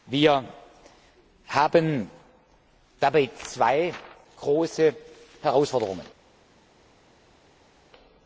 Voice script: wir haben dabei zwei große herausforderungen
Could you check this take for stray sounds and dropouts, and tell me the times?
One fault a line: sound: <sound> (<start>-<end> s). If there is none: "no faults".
no faults